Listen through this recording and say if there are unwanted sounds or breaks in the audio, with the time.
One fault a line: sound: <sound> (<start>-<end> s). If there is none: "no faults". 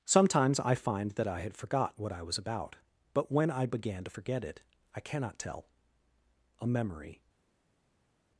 no faults